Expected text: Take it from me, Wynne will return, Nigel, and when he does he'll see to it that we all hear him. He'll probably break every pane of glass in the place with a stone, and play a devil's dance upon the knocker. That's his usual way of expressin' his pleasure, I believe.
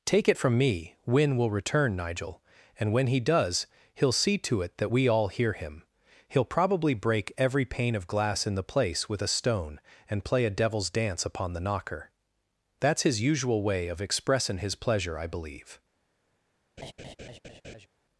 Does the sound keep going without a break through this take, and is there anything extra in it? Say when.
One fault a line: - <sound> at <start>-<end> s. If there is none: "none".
- laugh at 16.8-17.9 s